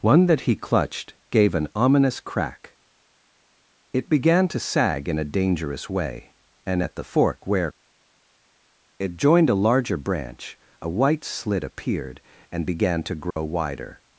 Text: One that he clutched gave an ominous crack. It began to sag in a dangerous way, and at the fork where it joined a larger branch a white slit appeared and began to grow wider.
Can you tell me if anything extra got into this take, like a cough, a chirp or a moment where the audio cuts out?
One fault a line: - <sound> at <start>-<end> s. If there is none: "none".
- dropout at 13.3-13.4 s